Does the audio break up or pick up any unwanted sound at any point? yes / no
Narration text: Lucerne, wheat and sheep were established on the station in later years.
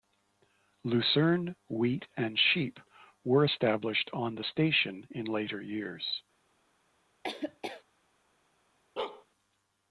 yes